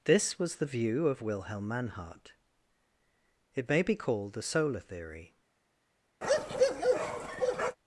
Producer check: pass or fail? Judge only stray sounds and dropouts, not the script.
fail